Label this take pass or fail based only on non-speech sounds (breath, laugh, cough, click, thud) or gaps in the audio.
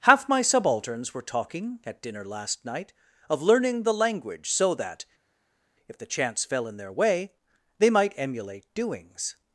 pass